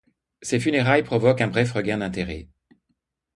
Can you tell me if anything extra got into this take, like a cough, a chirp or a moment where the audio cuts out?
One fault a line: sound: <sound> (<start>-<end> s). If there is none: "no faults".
no faults